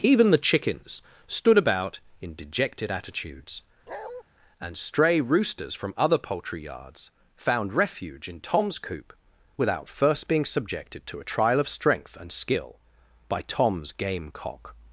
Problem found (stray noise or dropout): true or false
true